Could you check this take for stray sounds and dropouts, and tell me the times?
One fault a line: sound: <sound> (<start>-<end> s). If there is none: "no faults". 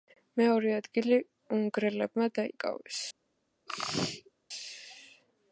sound: sneeze (3.7-4.3 s)